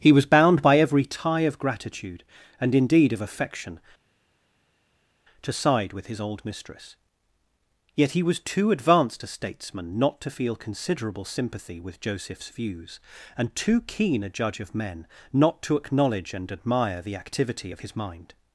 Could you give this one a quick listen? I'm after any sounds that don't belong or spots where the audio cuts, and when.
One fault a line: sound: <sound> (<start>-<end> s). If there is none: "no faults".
no faults